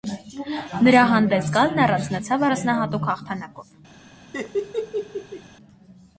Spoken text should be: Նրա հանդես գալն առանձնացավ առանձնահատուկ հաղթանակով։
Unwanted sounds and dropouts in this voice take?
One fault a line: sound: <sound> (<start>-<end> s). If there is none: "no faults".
sound: laugh (4.3-5.4 s)